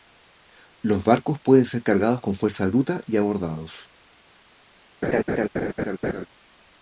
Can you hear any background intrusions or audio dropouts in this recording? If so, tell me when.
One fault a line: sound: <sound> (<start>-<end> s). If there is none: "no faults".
sound: laugh (5.0-6.3 s)